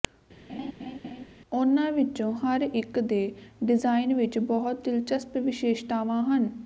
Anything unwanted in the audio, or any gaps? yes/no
yes